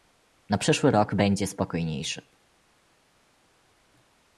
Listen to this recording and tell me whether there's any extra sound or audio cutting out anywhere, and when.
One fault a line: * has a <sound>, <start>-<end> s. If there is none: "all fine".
all fine